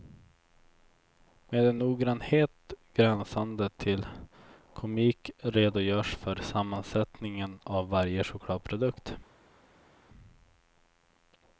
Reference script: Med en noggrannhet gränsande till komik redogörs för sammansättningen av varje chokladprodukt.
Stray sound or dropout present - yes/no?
no